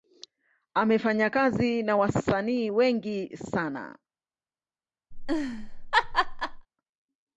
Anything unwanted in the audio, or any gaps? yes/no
yes